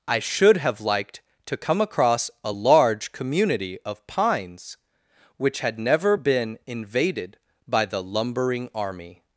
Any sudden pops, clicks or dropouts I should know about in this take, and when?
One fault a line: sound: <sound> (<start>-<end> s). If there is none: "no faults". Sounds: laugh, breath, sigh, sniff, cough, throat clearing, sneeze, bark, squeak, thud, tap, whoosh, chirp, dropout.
no faults